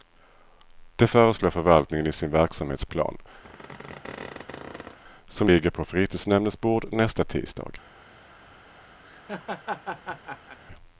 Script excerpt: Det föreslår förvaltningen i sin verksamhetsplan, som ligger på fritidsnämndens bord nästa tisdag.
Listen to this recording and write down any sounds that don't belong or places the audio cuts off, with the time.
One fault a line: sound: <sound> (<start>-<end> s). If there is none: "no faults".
sound: squeak (3.4-5.0 s)
sound: laugh (9.0-10.6 s)